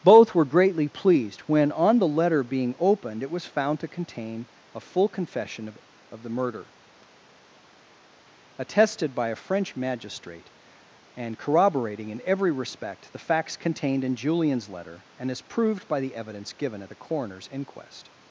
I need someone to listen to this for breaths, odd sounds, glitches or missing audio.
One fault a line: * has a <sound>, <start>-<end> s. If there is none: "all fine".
all fine